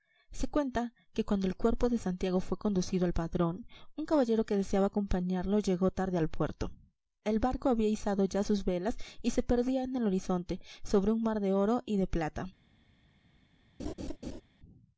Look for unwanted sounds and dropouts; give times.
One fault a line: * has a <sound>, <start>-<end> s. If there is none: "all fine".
* has a laugh, 13.8-14.4 s